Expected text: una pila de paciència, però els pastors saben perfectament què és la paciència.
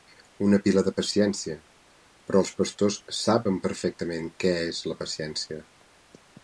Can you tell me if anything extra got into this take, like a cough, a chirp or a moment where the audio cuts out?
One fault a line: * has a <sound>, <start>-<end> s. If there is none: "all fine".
all fine